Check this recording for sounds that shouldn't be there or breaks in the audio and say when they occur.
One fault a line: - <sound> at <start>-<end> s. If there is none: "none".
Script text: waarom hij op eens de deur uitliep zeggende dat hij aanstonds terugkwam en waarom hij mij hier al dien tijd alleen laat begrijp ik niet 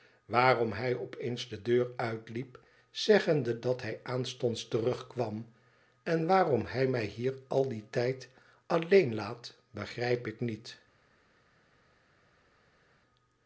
none